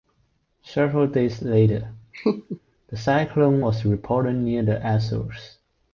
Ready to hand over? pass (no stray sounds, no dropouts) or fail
fail